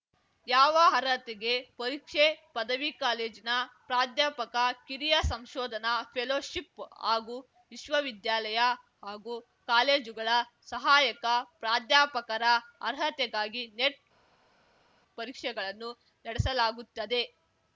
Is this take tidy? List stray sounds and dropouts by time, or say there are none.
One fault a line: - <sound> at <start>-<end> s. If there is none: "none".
none